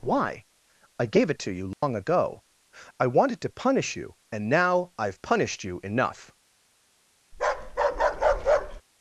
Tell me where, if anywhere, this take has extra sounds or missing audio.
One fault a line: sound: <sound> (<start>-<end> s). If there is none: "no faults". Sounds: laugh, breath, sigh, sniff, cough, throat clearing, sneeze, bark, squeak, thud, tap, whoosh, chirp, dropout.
sound: dropout (1.7-1.8 s)
sound: bark (7.3-8.8 s)